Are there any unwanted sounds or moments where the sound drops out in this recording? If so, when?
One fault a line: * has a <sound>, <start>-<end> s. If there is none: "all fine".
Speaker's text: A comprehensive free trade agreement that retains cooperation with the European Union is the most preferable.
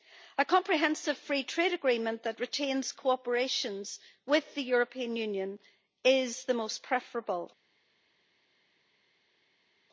all fine